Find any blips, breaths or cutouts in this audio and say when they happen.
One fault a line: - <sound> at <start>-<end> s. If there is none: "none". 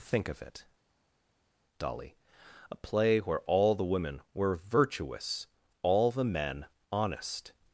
none